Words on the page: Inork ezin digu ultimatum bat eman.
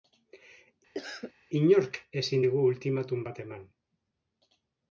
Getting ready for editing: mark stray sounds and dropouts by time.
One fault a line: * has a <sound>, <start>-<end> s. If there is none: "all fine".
* has a cough, 0.9-1.3 s